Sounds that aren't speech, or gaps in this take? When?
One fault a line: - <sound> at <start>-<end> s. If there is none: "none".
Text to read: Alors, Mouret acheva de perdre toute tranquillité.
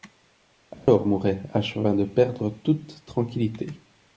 - dropout at 0.7-0.9 s